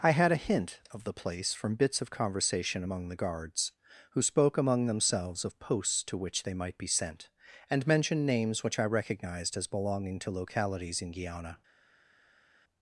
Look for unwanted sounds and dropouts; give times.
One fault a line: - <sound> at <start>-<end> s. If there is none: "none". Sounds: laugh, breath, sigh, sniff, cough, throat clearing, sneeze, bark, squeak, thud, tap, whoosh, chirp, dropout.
none